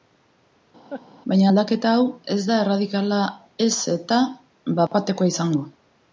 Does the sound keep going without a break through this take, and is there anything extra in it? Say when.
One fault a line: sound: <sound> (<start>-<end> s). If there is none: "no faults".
sound: laugh (0.9-1.0 s)
sound: dropout (4.9-4.9 s)